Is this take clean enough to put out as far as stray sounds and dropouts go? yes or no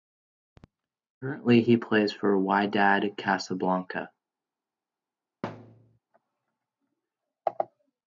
no